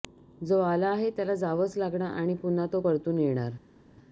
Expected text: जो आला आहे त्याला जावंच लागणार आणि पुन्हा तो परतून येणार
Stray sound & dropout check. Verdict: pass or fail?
pass